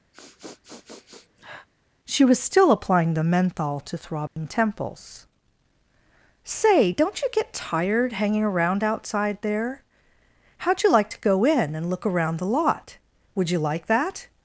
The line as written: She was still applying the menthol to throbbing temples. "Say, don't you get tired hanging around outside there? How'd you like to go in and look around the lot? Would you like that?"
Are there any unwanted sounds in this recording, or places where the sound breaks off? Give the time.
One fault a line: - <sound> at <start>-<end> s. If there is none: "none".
- sniff at 0.1-1.7 s
- dropout at 4.3-4.4 s